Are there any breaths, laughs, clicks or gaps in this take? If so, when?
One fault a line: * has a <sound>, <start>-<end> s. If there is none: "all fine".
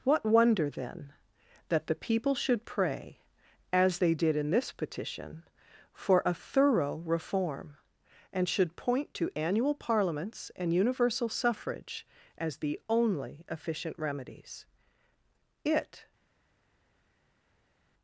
all fine